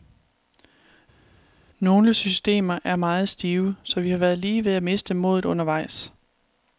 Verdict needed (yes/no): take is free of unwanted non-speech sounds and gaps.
yes